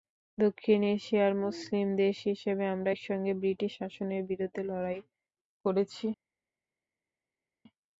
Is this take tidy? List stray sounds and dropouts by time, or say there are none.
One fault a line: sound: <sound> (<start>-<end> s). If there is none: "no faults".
no faults